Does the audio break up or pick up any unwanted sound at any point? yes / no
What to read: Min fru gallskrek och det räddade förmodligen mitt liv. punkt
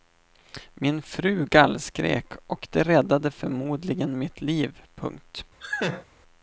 yes